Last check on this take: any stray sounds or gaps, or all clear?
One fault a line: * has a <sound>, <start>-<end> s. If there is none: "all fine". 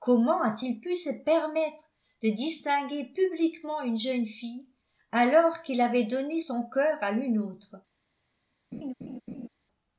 * has a laugh, 8.7-9.5 s